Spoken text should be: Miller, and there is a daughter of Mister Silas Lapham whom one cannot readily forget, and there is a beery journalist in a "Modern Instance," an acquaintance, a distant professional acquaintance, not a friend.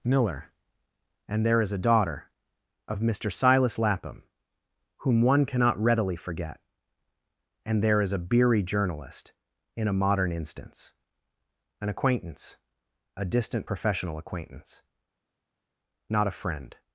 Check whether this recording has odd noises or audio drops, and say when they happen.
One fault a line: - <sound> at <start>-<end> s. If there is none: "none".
none